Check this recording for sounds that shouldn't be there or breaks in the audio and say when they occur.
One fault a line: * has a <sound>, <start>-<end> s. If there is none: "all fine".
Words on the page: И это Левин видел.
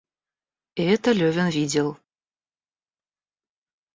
all fine